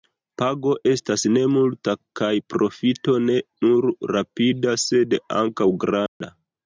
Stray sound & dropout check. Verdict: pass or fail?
fail